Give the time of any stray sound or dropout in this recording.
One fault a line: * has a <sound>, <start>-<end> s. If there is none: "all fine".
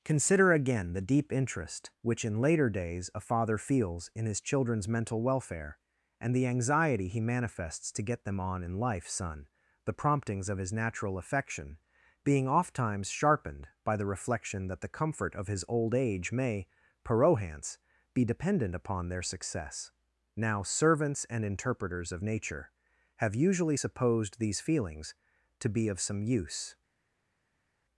all fine